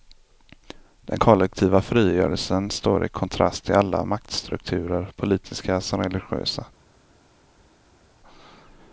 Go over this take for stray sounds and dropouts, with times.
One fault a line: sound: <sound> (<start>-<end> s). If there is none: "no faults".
no faults